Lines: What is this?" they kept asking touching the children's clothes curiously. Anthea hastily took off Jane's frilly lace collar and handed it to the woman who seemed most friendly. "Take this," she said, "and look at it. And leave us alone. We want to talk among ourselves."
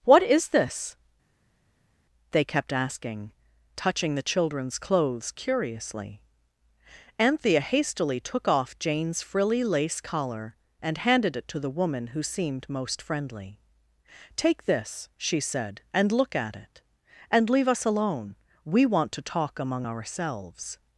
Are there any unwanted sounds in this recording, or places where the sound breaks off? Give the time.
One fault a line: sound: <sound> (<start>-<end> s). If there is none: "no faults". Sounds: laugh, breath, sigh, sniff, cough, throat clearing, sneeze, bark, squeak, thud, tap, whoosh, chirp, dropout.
no faults